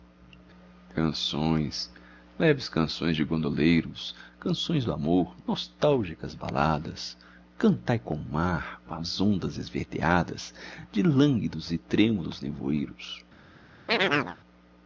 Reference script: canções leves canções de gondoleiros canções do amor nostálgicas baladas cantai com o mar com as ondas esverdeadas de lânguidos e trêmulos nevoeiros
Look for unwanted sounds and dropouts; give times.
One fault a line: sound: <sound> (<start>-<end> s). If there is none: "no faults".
sound: chirp (13.9-14.4 s)